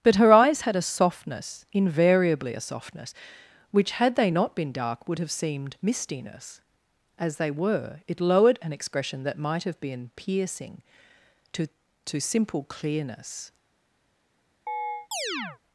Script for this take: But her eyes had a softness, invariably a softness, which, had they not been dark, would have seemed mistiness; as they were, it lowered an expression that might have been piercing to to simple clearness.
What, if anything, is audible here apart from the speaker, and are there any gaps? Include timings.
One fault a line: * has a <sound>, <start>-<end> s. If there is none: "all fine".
* has a chirp, 14.7-15.6 s